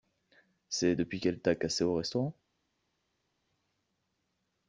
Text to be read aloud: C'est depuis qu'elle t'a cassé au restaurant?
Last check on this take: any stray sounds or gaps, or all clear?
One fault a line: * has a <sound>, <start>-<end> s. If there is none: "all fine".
all fine